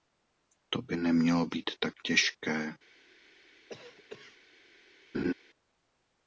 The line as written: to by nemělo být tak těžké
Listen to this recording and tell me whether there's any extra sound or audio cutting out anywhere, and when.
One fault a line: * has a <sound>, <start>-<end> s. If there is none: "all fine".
* has a cough, 3.7-4.4 s
* has a laugh, 5.1-5.3 s